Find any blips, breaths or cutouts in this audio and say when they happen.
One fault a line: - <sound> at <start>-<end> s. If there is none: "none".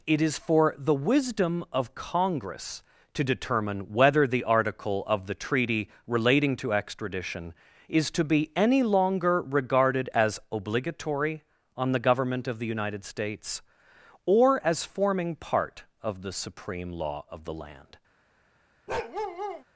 - bark at 18.9-19.6 s